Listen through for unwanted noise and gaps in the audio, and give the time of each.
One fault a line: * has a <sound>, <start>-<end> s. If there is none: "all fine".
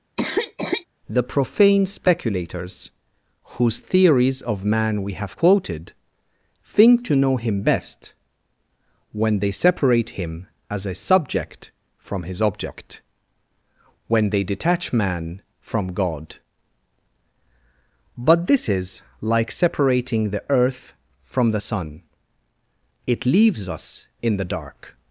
* has a cough, 0.2-0.9 s